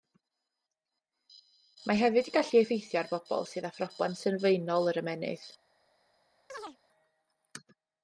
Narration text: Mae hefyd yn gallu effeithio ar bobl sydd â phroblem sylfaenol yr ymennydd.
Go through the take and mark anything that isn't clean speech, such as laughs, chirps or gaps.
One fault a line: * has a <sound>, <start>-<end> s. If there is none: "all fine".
* has a chirp, 6.5-6.8 s